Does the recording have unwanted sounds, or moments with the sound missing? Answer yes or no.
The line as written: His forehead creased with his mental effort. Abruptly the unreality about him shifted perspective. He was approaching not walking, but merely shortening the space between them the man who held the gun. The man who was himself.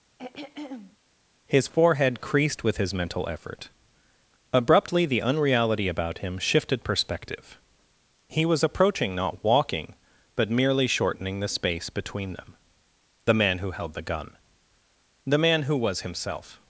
yes